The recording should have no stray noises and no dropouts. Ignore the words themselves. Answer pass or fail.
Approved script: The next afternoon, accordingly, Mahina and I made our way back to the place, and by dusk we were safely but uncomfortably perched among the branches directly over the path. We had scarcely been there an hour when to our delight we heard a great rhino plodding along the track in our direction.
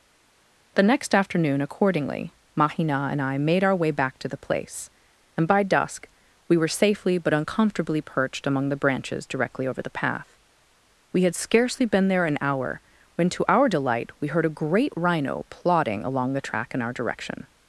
pass